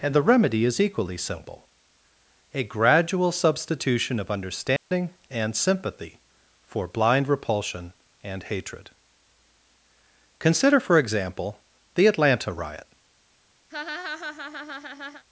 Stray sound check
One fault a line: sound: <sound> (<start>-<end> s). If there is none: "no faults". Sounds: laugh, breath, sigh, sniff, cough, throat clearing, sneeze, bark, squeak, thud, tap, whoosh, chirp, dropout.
sound: dropout (4.8-4.9 s)
sound: laugh (13.7-15.2 s)